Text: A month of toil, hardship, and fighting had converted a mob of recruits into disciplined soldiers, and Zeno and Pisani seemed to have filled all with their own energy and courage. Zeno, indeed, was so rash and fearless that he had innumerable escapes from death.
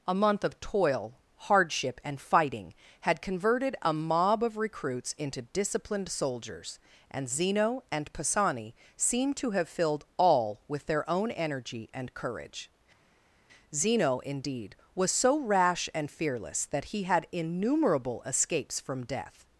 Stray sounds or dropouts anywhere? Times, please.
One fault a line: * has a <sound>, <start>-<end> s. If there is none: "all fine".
all fine